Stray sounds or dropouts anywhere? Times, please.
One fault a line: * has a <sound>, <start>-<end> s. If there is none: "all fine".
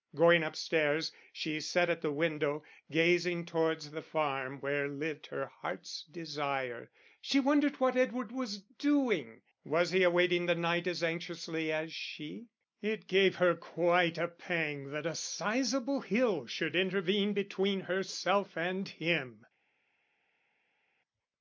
all fine